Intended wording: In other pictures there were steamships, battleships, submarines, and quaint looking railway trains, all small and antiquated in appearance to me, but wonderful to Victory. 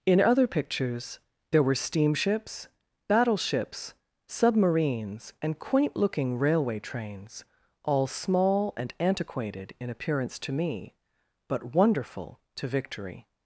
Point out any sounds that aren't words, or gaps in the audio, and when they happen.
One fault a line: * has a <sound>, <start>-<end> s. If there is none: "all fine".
all fine